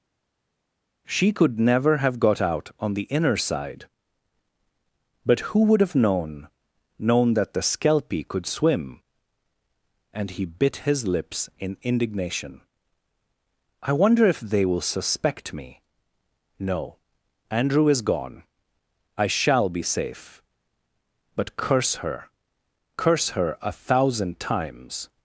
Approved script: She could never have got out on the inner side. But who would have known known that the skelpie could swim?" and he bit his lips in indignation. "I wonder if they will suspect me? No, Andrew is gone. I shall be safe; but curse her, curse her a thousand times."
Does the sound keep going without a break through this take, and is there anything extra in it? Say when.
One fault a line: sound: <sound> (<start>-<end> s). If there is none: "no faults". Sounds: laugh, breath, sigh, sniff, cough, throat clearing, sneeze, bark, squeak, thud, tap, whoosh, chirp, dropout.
no faults